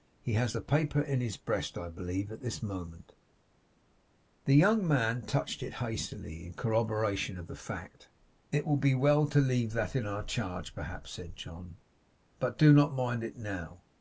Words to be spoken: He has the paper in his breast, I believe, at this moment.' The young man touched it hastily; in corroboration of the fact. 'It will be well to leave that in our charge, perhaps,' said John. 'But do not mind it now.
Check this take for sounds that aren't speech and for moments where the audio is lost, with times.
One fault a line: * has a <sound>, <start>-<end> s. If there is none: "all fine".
all fine